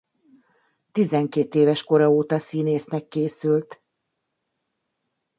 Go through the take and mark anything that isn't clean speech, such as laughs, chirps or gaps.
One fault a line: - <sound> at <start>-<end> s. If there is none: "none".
none